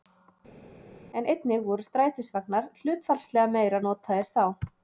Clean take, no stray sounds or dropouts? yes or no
yes